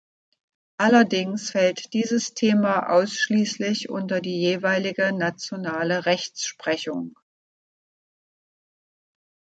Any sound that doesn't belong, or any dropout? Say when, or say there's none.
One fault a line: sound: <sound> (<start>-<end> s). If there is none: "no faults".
no faults